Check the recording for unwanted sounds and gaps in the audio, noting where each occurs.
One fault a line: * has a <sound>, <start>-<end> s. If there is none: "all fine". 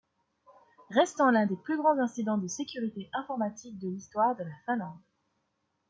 all fine